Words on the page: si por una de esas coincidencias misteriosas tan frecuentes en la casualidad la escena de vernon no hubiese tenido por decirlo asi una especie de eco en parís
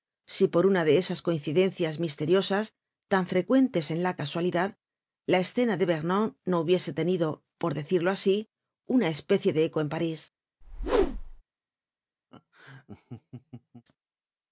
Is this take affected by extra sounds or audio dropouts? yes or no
yes